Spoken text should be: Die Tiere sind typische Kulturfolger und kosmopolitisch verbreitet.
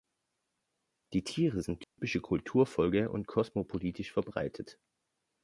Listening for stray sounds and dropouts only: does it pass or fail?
fail